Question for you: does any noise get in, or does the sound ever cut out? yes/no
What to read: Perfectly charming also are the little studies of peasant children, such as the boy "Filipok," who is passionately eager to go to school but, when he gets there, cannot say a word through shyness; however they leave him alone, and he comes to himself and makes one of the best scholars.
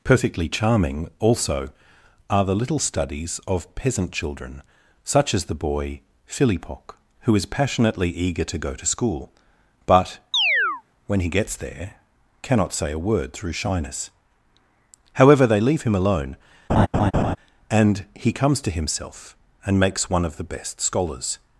yes